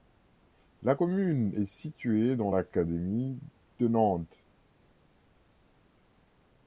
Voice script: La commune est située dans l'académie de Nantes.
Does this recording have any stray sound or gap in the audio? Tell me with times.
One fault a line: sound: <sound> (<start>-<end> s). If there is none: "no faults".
no faults